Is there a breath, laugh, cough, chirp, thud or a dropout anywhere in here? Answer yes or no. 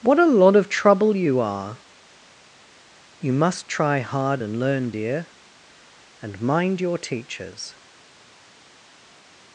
no